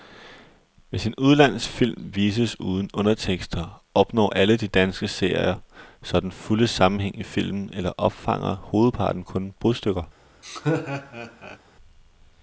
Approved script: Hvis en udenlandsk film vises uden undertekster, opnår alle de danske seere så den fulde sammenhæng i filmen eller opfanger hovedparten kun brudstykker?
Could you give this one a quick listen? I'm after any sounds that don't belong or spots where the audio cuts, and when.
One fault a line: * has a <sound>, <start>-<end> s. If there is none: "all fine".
* has a laugh, 10.4-11.6 s